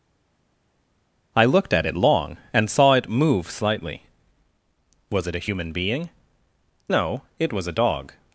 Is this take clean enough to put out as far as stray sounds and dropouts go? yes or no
yes